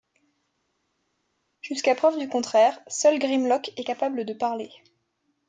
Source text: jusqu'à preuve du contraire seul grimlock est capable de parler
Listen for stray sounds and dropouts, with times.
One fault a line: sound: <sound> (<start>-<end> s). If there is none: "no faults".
no faults